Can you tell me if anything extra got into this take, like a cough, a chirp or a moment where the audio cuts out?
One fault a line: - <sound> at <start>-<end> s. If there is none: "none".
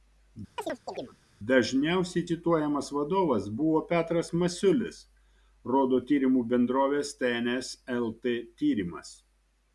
- chirp at 0.6-1.2 s